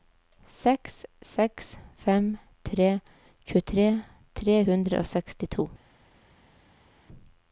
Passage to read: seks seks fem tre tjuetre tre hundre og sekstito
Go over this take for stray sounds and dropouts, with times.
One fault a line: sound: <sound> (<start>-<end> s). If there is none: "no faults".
no faults